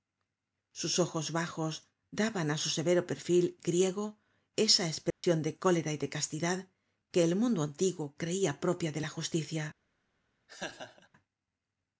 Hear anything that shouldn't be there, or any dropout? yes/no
yes